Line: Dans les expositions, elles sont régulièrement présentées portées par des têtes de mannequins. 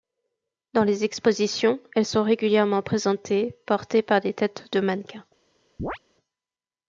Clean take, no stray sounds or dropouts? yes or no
no